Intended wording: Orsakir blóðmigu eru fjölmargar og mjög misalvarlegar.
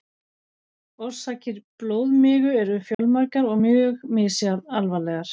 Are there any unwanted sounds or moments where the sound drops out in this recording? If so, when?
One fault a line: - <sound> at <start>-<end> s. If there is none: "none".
- dropout at 2.9-3.0 s